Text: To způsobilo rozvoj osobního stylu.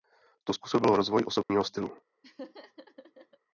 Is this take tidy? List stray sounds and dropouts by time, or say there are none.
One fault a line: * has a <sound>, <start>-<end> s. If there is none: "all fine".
* has a dropout, 1.4-1.5 s
* has a laugh, 2.2-3.4 s